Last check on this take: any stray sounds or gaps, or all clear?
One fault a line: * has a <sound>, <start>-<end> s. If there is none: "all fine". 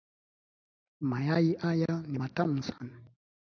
all fine